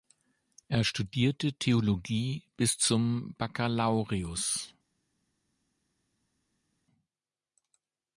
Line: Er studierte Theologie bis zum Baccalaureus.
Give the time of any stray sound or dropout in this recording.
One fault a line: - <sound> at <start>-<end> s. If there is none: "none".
none